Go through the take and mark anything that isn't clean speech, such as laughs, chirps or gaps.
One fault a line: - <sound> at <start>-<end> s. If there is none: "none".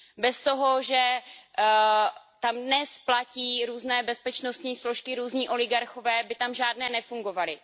none